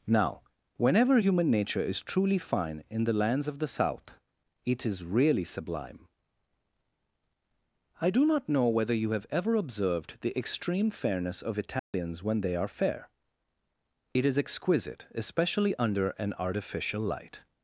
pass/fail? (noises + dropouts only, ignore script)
fail